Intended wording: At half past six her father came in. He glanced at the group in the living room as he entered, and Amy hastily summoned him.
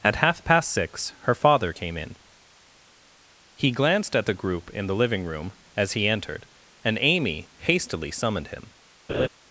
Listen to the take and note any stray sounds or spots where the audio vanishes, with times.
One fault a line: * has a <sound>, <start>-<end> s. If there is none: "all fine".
* has a laugh, 9.1-9.3 s